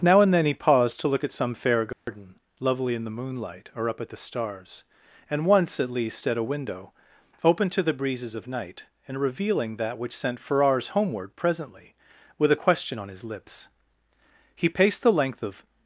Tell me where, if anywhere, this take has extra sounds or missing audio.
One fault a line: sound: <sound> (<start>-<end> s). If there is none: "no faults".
sound: dropout (1.9-2.1 s)